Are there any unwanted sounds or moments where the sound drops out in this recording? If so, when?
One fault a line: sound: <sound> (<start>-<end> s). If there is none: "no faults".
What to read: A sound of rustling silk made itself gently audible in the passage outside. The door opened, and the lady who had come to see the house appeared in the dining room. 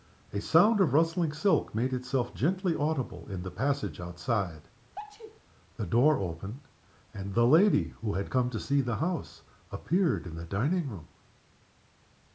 sound: sneeze (5.0-5.4 s)